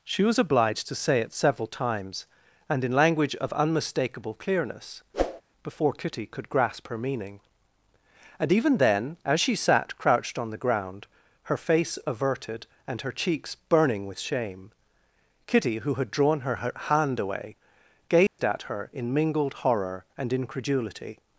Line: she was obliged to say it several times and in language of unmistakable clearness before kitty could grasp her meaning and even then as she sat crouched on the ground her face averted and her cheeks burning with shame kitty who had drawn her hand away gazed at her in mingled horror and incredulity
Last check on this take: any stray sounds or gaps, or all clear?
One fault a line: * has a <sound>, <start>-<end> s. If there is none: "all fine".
* has a whoosh, 5.1-5.4 s
* has a dropout, 18.3-18.4 s